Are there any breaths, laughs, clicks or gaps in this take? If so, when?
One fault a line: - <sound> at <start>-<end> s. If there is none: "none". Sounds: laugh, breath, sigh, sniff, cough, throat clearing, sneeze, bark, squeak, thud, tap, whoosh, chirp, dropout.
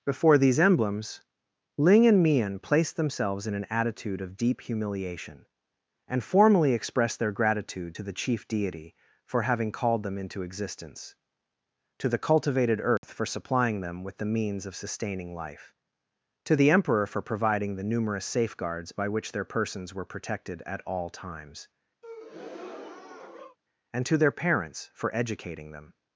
- dropout at 13.0-13.0 s
- breath at 22.0-23.6 s